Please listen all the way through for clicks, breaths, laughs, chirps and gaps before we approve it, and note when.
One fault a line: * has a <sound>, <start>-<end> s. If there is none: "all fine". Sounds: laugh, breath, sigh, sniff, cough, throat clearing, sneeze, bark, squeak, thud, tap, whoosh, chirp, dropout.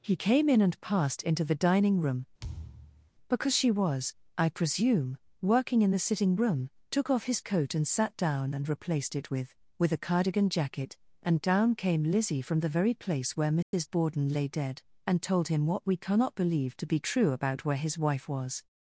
* has a thud, 2.4-3.1 s
* has a dropout, 13.6-13.7 s